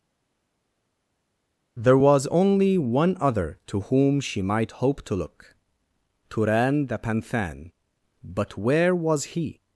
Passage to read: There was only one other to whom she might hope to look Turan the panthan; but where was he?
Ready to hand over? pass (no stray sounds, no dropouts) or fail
pass